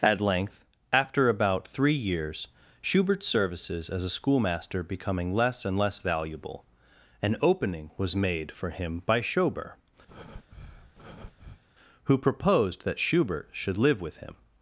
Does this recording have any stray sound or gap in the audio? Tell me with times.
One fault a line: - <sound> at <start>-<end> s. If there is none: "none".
- breath at 10.1-11.6 s